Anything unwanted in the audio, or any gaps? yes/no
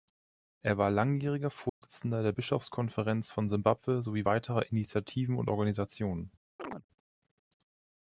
yes